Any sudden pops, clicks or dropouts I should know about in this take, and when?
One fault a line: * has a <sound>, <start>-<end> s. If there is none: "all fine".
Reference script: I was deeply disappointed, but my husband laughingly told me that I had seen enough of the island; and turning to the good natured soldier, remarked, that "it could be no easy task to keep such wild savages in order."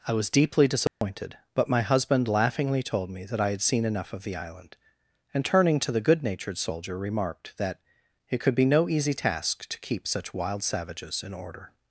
* has a dropout, 0.9-1.0 s